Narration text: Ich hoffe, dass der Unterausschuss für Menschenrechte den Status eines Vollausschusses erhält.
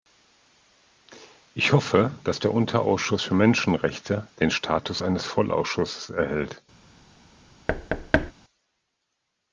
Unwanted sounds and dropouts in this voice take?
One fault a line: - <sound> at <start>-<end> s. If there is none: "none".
- thud at 7.7-8.3 s